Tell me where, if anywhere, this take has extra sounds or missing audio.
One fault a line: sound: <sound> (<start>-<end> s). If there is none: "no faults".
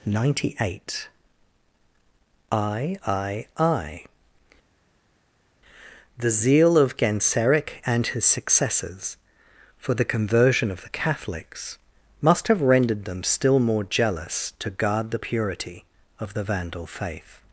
no faults